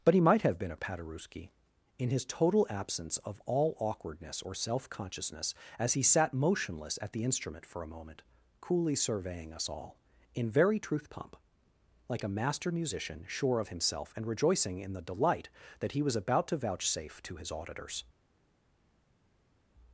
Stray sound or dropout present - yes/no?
no